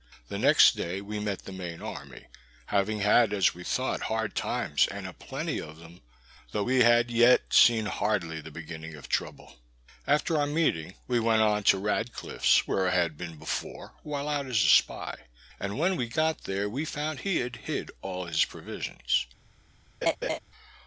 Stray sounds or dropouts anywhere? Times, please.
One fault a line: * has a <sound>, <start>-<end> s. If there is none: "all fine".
* has a laugh, 20.0-20.4 s